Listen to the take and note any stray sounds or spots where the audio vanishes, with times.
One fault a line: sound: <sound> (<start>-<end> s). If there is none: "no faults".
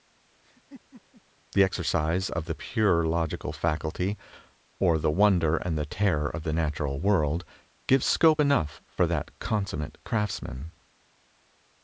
sound: laugh (0.4-1.2 s)